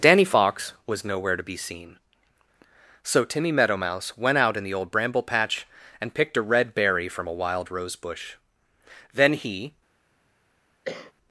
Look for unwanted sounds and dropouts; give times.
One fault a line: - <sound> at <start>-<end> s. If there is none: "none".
- cough at 10.8-11.1 s